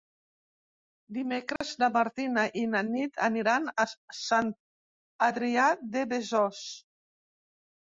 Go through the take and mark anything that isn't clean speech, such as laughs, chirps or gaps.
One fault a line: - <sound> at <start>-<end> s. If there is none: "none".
- dropout at 1.6-1.6 s